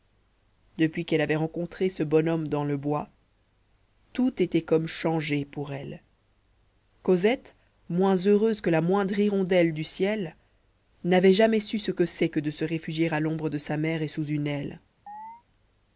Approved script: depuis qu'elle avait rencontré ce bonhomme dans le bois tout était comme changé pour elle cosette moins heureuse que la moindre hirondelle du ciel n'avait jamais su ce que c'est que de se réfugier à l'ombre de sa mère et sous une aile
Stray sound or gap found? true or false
true